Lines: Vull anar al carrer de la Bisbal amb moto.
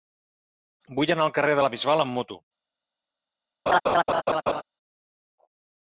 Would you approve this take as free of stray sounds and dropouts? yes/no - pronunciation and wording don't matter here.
no